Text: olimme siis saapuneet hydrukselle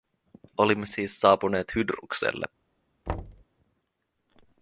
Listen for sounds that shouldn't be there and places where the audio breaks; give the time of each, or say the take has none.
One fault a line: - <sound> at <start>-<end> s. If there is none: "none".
- thud at 3.1-3.4 s